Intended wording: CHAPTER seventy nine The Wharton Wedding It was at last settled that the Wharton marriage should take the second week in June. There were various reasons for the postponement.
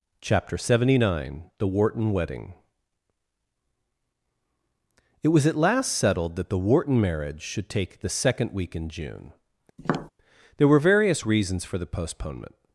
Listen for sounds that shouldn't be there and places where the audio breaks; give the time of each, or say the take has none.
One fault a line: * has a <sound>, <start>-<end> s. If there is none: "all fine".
* has a tap, 9.8-10.1 s